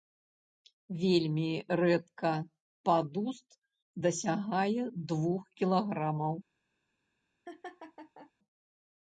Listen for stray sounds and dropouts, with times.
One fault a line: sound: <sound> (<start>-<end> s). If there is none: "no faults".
sound: laugh (7.5-8.3 s)